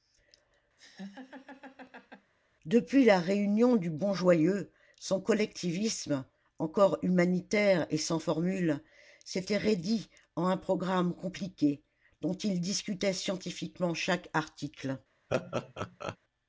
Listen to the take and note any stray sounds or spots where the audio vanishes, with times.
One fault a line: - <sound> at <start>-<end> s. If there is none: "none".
- laugh at 0.8-2.3 s
- laugh at 15.3-16.2 s